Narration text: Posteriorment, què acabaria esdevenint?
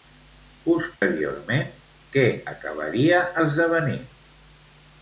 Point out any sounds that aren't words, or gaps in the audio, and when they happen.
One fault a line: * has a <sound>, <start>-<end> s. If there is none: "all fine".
* has a dropout, 1.0-1.0 s